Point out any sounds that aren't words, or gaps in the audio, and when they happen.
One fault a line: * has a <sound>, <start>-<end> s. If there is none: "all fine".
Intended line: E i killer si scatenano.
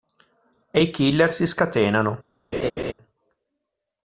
* has a laugh, 2.5-2.9 s